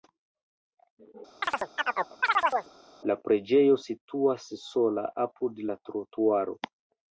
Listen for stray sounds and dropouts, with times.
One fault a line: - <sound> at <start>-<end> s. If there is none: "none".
- chirp at 1.4-2.7 s